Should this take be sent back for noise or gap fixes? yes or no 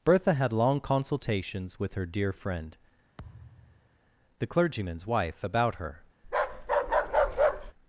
yes